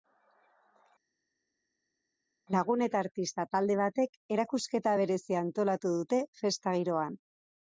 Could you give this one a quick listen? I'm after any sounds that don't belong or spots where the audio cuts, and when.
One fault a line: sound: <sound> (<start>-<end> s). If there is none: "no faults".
no faults